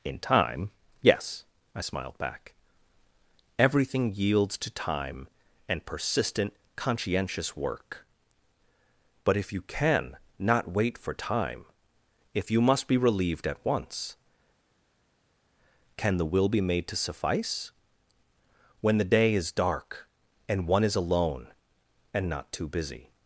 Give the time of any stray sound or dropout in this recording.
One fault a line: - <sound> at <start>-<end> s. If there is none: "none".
none